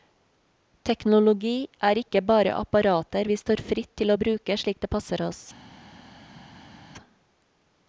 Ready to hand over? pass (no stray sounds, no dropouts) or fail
pass